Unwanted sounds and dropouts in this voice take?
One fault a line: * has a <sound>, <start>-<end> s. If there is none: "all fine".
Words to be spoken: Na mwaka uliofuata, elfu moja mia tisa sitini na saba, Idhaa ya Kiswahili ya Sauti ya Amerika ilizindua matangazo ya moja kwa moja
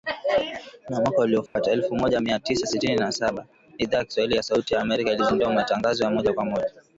* has a dropout, 1.5-1.6 s